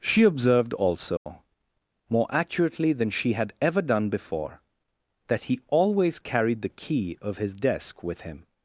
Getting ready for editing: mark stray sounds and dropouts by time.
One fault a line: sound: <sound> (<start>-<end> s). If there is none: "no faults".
sound: dropout (1.2-1.3 s)